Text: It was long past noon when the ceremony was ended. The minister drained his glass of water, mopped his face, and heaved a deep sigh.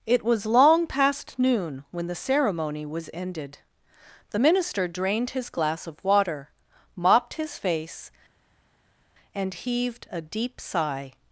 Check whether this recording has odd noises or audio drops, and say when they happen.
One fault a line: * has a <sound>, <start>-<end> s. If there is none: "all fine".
all fine